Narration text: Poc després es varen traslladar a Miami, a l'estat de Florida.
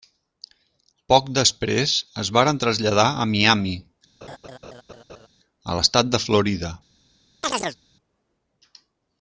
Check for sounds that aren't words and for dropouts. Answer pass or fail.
fail